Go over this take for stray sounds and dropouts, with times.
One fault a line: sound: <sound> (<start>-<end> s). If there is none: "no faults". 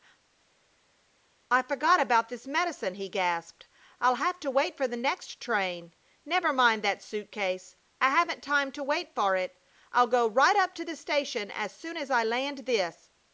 no faults